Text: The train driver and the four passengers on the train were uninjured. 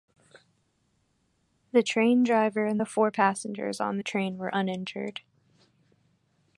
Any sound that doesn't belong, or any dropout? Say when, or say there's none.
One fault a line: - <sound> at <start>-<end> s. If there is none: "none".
none